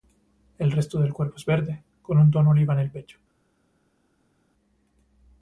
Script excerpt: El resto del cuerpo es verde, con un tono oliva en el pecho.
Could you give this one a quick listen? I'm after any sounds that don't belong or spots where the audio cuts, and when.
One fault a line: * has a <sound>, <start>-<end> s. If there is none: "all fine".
all fine